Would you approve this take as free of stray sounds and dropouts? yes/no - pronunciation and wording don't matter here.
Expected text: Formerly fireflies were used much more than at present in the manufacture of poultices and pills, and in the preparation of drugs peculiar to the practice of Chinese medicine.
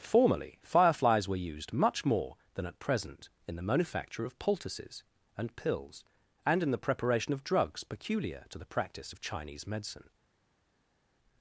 yes